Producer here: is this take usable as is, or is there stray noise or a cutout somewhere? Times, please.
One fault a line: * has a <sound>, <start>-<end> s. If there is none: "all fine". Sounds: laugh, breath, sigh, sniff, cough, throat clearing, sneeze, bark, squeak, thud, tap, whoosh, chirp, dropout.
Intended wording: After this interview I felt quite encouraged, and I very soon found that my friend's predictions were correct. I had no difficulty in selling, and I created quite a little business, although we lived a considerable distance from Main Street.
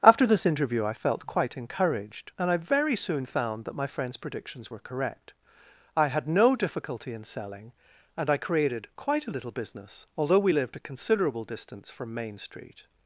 all fine